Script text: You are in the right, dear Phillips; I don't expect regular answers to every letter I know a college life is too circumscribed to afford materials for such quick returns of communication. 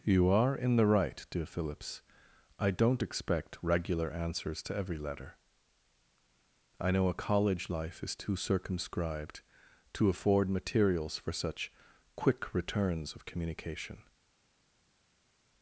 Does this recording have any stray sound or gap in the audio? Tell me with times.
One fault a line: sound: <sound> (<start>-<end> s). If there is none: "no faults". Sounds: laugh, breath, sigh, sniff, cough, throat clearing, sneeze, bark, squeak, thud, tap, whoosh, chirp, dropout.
no faults